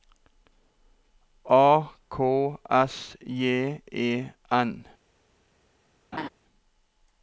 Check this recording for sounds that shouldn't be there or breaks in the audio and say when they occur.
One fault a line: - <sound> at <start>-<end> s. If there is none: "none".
- laugh at 6.1-6.3 s